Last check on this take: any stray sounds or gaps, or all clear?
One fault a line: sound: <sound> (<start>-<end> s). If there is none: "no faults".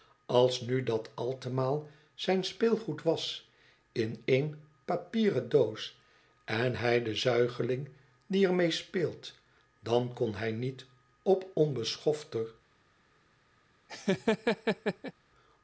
sound: laugh (13.9-15.1 s)